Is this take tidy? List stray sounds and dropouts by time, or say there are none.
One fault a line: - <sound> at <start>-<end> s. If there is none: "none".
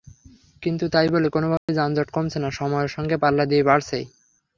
- dropout at 1.6-1.7 s